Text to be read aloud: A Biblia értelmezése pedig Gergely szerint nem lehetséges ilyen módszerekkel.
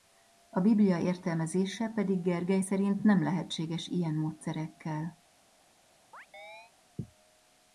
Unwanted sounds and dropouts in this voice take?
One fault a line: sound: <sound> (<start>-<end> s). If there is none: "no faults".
sound: chirp (6.1-6.7 s)